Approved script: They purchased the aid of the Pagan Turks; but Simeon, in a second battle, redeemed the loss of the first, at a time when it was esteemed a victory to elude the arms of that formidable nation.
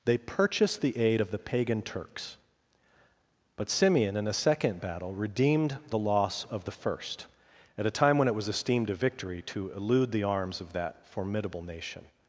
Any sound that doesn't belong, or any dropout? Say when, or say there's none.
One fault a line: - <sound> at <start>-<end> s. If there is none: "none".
none